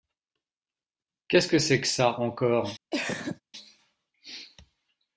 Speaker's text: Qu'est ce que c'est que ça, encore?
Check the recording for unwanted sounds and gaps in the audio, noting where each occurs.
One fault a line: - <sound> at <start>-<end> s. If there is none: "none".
- cough at 2.9-3.4 s